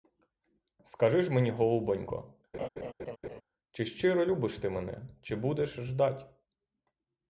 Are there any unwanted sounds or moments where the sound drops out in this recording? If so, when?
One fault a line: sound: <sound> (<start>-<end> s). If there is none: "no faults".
sound: laugh (2.5-3.4 s)